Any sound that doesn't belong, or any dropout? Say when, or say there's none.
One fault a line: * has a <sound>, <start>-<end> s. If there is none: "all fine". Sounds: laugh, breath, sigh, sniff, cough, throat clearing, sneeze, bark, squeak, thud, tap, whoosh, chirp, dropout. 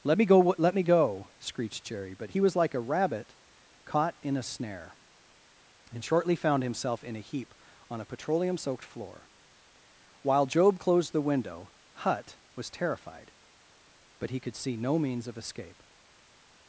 all fine